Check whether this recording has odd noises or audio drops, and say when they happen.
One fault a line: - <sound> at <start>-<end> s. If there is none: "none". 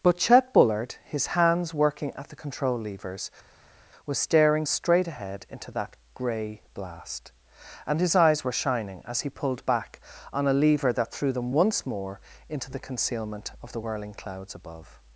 none